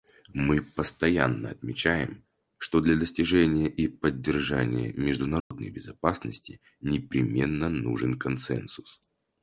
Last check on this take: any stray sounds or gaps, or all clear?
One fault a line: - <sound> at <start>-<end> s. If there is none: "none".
- dropout at 5.4-5.5 s